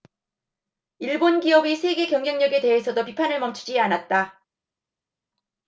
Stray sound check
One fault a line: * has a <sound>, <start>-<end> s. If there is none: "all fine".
all fine